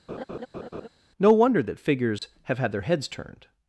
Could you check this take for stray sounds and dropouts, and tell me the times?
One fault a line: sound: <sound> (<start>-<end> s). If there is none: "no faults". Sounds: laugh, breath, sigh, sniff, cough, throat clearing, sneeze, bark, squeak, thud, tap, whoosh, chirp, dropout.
sound: laugh (0.1-0.9 s)
sound: dropout (2.2-2.2 s)